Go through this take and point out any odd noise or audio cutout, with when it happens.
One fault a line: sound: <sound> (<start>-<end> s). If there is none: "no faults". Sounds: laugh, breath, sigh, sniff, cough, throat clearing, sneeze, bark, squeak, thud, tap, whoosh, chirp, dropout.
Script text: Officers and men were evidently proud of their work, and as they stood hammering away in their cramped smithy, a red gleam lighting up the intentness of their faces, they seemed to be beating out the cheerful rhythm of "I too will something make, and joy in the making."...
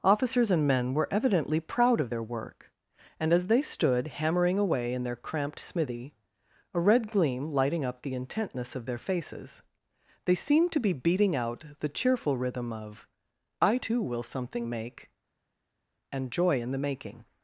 no faults